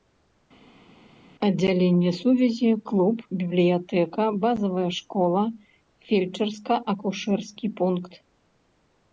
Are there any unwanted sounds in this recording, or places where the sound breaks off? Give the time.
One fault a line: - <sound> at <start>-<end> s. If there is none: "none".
none